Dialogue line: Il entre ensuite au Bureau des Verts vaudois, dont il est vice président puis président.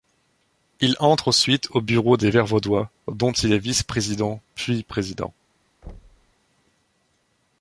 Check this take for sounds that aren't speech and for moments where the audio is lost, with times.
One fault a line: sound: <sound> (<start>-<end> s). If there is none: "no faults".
sound: thud (5.8-6.3 s)